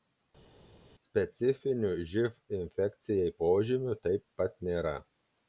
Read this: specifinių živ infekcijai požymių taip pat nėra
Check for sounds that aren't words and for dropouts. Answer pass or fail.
pass